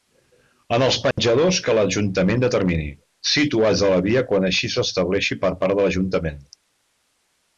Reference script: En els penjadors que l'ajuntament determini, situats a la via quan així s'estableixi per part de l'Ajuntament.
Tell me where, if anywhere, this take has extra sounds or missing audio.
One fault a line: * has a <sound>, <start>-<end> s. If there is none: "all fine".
* has a dropout, 1.1-1.2 s